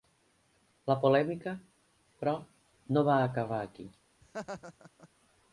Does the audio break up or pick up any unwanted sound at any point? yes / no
yes